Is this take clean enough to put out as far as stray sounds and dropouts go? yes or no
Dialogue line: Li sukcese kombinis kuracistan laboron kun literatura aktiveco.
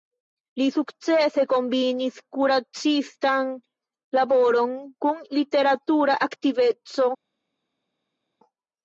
yes